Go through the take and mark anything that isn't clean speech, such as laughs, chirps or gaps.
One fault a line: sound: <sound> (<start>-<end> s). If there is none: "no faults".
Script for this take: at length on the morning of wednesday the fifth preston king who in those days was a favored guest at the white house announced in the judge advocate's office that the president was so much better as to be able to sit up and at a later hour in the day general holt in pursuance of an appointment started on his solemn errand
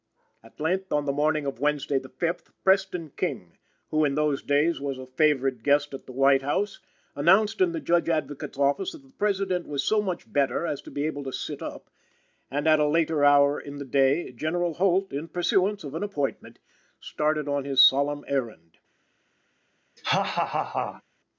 sound: laugh (20.0-21.0 s)